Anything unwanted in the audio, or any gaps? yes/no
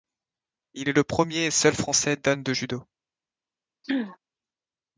yes